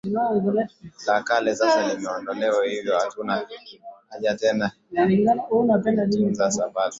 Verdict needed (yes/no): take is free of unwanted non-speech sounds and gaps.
yes